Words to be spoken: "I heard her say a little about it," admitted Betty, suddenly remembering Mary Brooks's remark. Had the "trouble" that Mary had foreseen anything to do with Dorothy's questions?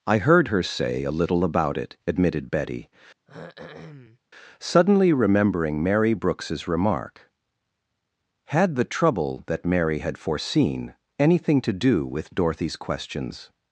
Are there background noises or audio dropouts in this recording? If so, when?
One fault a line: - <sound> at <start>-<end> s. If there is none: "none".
- throat clearing at 3.3-4.2 s